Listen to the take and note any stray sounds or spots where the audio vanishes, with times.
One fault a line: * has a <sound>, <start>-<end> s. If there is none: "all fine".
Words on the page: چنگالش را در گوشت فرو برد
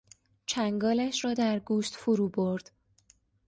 all fine